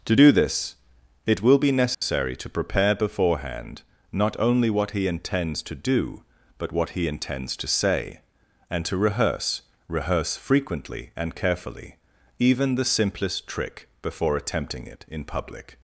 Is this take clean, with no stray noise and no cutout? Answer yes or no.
no